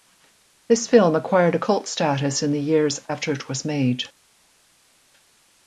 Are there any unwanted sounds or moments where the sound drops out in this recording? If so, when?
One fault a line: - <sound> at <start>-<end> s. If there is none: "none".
none